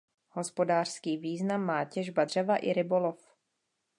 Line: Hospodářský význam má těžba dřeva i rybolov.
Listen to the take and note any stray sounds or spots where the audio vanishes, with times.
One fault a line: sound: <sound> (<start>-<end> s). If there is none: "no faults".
no faults